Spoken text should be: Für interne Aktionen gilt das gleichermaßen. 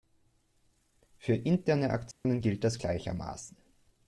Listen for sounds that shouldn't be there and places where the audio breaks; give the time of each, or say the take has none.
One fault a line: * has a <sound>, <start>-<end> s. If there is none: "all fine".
* has a dropout, 2.1-2.2 s